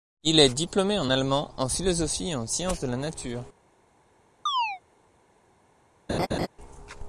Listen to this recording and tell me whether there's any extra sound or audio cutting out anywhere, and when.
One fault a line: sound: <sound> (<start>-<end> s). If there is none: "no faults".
sound: chirp (4.5-4.8 s)
sound: laugh (6.1-6.5 s)